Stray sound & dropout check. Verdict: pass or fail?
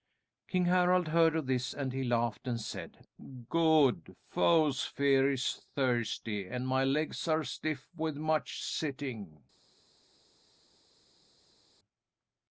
pass